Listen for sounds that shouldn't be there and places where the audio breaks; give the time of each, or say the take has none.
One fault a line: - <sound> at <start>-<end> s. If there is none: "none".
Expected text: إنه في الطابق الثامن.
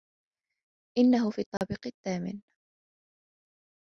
- dropout at 1.6-1.6 s